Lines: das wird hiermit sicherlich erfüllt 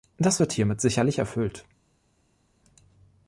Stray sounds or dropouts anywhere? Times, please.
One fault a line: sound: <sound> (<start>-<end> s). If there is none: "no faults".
no faults